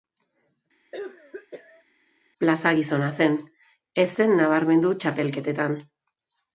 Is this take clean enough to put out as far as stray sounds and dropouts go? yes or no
no